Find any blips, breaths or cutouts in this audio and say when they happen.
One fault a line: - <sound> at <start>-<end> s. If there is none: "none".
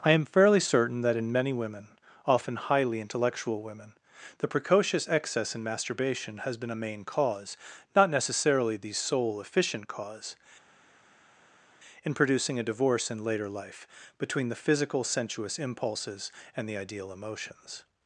none